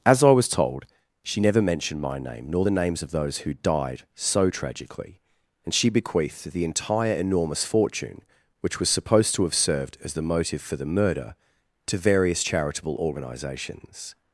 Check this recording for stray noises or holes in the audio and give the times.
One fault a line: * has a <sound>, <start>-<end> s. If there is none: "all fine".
all fine